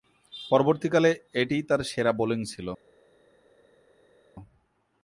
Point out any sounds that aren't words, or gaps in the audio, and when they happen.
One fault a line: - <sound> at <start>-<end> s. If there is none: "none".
none